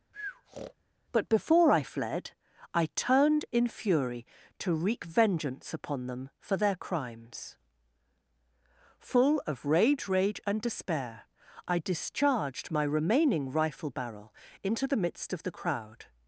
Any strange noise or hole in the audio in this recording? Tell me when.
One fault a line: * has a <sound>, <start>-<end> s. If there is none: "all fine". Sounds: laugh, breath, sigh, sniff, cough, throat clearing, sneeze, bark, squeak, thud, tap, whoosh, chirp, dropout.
* has a breath, 0.1-0.7 s